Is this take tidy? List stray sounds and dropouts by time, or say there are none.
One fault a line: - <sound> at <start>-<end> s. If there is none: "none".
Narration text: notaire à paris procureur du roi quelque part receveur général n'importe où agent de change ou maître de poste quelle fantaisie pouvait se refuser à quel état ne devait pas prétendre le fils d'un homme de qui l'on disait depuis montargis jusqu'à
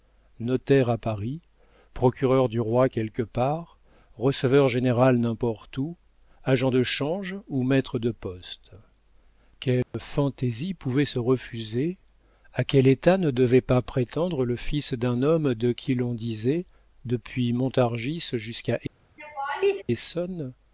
- dropout at 9.8-9.9 s
- laugh at 19.2-19.8 s